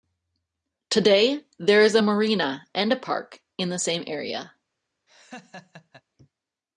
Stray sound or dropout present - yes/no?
yes